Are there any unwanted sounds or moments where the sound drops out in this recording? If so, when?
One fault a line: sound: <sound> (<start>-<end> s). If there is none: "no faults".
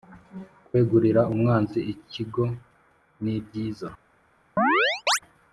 sound: chirp (4.6-5.2 s)